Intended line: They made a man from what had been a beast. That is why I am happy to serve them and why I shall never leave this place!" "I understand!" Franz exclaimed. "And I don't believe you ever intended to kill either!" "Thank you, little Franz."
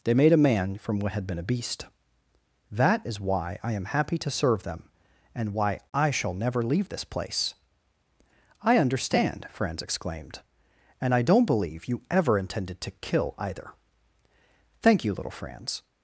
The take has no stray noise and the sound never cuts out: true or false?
true